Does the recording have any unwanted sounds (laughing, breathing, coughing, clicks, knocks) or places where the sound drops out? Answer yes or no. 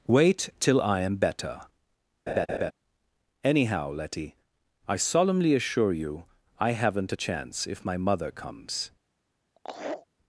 yes